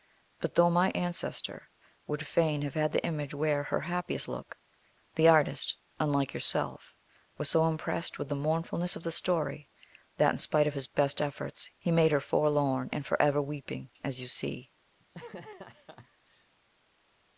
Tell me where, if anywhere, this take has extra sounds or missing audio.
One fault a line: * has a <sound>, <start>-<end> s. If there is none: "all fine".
* has a laugh, 15.0-16.5 s